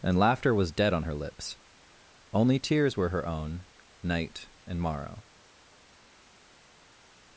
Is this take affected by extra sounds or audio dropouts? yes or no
no